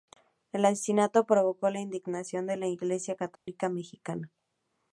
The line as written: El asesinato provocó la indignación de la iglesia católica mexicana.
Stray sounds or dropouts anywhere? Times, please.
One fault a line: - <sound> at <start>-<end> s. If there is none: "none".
- dropout at 3.4-3.5 s